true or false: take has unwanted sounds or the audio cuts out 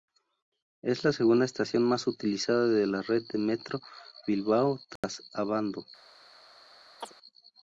true